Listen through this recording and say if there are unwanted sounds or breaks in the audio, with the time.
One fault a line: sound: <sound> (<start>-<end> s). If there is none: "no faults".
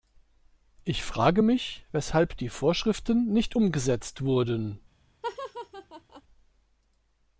sound: laugh (5.2-6.2 s)